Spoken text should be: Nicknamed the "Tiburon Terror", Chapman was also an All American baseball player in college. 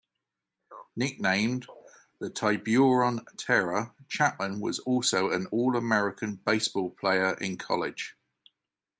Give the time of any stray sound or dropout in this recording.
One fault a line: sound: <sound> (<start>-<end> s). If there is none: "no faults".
no faults